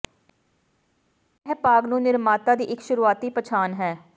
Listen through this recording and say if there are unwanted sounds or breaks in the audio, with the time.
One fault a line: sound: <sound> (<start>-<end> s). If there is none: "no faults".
no faults